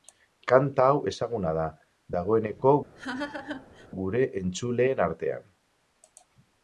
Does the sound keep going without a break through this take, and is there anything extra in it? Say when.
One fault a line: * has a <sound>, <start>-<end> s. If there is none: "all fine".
* has a laugh, 3.0-3.9 s